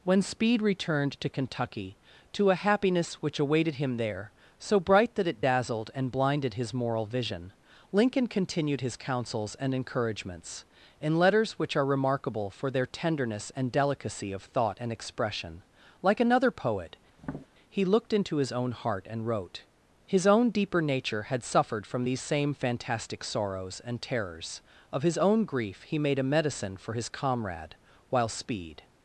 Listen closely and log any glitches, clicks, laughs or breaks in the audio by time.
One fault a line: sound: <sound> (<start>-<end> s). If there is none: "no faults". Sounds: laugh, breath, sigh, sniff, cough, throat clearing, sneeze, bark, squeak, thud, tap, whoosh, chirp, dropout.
sound: tap (17.2-17.5 s)